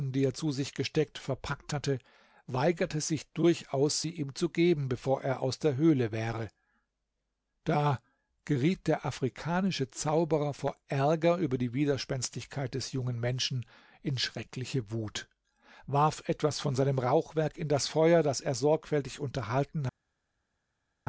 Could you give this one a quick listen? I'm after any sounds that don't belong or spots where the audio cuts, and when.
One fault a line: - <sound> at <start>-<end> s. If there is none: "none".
none